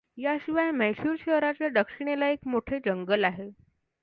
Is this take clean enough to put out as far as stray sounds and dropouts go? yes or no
yes